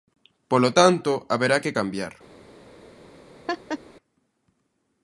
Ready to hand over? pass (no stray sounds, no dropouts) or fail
fail